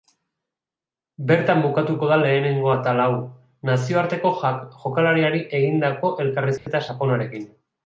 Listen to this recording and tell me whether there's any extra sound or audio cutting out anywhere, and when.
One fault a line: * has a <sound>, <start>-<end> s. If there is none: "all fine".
* has a dropout, 6.6-6.7 s